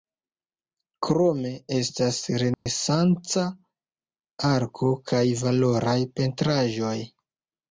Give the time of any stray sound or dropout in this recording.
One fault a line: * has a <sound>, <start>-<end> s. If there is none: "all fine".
* has a dropout, 2.5-2.7 s